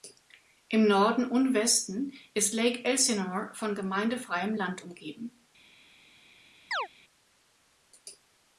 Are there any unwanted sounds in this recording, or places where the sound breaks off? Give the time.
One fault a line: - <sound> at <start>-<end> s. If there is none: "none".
- chirp at 6.7-6.9 s